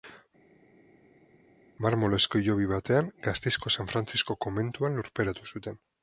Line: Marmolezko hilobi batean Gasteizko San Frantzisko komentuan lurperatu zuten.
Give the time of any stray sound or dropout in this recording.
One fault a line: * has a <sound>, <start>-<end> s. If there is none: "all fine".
all fine